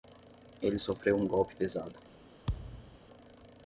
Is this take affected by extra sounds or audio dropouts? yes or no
yes